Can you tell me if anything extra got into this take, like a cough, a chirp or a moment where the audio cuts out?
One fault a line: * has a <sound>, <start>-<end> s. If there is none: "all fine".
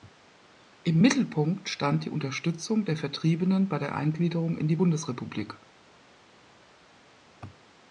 all fine